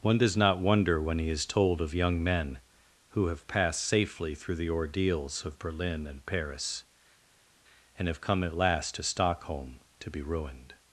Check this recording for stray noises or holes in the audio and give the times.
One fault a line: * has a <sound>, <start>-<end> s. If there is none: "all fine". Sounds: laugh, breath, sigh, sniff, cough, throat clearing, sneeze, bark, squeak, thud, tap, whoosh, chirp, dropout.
all fine